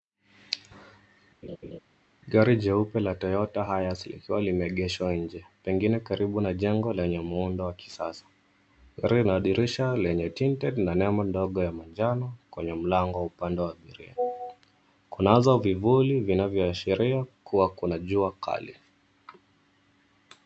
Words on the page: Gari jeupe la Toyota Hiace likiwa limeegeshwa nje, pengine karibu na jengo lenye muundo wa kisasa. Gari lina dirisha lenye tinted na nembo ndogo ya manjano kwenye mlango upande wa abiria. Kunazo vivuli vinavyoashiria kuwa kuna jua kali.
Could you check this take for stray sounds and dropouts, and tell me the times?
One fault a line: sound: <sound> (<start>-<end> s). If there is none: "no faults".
sound: laugh (1.4-1.8 s)